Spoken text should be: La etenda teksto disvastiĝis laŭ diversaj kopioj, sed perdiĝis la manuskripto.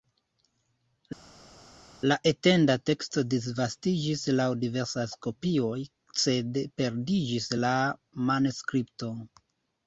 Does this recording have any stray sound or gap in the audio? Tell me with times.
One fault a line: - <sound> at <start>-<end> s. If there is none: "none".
none